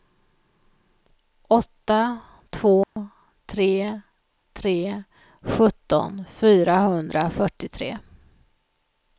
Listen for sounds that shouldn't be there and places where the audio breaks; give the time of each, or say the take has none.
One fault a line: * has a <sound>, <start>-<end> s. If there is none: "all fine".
* has a dropout, 2.8-3.0 s